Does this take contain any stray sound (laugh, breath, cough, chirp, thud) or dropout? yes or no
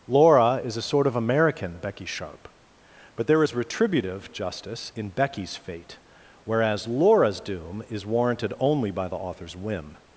no